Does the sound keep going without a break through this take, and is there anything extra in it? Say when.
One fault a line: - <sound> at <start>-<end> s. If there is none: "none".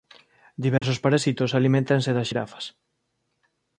- dropout at 0.8-0.8 s